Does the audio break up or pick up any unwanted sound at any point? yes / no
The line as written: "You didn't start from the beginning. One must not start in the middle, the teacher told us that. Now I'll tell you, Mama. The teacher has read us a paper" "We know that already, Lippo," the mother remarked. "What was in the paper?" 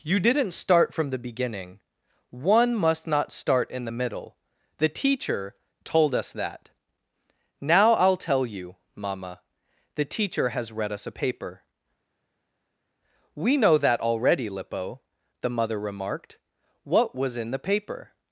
no